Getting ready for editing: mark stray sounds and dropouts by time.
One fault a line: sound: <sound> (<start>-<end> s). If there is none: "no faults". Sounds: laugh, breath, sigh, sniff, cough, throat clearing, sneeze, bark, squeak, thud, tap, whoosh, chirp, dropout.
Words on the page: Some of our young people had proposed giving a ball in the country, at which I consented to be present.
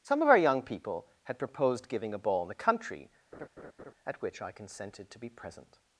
sound: laugh (3.3-3.9 s)